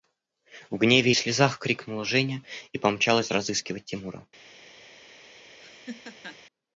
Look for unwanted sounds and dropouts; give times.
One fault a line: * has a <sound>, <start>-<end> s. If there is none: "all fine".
* has a laugh, 5.6-6.4 s